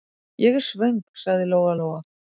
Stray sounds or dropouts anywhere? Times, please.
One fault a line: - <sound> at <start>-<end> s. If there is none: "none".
none